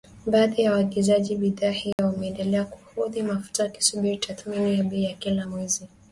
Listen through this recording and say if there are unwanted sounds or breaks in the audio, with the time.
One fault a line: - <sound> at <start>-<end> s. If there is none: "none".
- dropout at 1.9-2.0 s